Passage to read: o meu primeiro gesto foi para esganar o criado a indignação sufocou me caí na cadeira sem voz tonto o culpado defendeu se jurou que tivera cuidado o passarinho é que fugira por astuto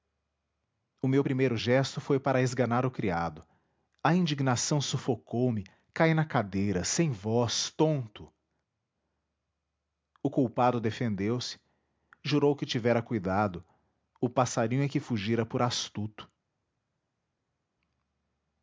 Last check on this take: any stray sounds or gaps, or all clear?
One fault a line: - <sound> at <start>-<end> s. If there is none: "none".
none